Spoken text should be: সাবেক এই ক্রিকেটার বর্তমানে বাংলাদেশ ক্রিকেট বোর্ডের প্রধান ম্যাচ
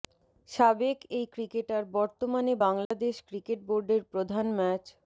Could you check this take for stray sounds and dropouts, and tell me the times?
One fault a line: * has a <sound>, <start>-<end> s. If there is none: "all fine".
* has a dropout, 2.9-2.9 s